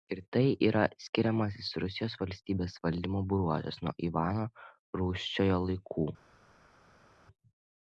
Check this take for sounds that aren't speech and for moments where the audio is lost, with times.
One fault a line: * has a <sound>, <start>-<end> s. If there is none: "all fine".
all fine